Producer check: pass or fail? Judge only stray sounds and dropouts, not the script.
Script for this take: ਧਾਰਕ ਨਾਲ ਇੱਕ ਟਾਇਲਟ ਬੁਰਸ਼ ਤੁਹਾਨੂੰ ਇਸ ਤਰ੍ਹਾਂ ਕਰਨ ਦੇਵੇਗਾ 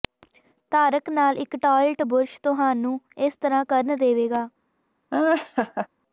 fail